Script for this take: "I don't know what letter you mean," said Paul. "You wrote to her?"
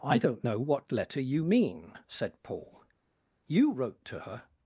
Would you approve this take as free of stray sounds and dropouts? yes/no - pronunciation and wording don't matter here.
yes